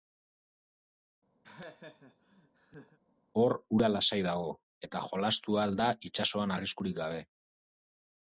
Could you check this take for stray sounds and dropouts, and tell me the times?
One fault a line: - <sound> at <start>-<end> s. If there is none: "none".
- laugh at 1.4-3.0 s